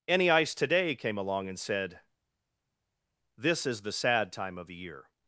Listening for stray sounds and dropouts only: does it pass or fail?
pass